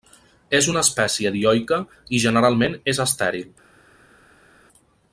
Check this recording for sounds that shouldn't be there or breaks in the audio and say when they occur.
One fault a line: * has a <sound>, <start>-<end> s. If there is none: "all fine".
all fine